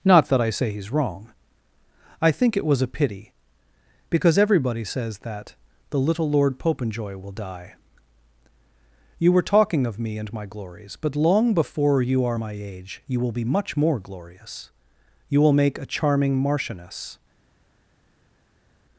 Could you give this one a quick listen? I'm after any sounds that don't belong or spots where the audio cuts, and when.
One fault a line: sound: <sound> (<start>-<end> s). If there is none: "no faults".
no faults